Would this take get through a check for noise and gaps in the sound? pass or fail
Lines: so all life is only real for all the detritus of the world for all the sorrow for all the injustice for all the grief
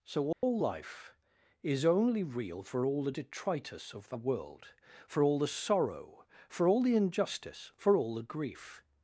fail